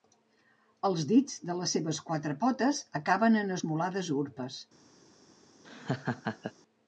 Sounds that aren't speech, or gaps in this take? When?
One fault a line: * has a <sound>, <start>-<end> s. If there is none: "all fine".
* has a laugh, 5.6-6.5 s